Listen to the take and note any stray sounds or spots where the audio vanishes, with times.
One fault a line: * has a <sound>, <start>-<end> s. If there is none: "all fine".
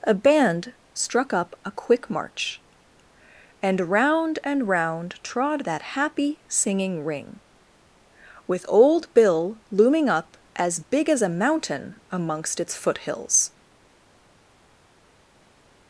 all fine